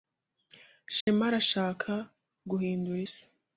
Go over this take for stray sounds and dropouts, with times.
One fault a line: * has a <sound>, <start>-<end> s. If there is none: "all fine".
* has a dropout, 1.0-1.1 s